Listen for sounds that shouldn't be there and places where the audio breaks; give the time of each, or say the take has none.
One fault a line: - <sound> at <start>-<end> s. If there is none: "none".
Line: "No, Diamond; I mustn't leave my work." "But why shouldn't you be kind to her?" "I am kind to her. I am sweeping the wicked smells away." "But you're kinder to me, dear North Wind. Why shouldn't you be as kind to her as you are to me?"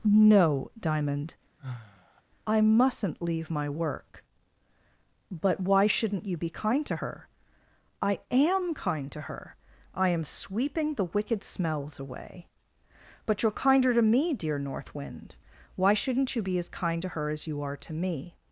- sigh at 1.6-2.2 s